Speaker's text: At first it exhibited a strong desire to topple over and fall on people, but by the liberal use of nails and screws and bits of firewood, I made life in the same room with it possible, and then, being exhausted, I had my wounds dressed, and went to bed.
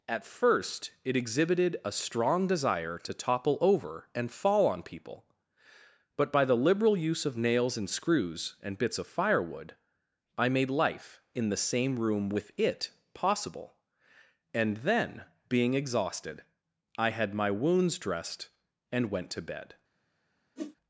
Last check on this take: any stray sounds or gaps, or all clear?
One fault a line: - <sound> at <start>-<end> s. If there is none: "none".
- whoosh at 20.6-20.8 s